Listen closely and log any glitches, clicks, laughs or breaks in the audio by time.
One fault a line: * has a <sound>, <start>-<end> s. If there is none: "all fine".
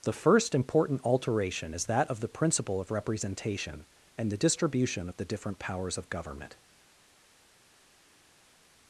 all fine